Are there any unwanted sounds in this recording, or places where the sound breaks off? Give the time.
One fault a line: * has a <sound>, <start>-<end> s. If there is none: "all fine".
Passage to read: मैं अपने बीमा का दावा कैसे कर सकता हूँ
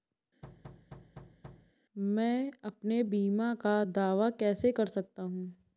* has a thud, 0.4-1.7 s